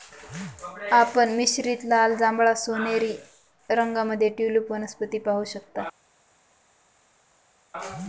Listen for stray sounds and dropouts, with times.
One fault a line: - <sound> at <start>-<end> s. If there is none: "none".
none